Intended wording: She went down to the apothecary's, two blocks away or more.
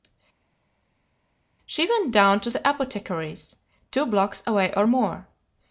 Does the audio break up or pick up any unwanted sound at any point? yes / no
no